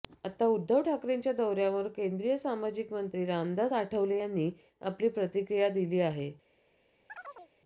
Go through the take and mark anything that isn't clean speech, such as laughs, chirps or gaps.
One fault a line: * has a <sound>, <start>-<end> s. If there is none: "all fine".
* has a chirp, 7.1-7.5 s